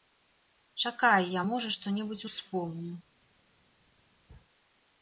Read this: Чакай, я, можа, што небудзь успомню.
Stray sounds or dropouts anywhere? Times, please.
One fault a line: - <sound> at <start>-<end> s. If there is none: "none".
none